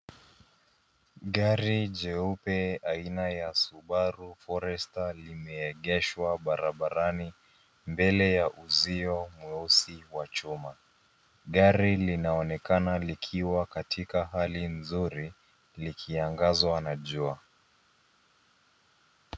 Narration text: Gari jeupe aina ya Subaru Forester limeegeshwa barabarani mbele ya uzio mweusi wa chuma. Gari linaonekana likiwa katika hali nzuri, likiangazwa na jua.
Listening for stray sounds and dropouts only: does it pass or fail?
pass